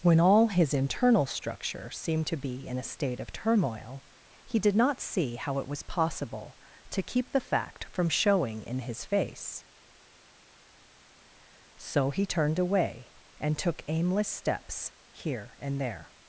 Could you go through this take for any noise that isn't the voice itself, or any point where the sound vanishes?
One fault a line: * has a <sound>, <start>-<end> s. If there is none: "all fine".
all fine